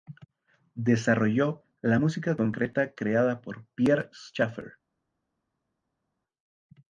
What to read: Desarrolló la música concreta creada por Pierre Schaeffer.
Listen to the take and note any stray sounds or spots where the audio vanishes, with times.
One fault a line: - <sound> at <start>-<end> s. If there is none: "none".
none